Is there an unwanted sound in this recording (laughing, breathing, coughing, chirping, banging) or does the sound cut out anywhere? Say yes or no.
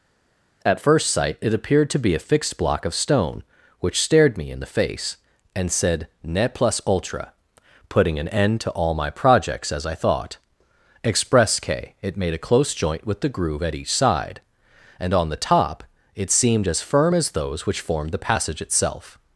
no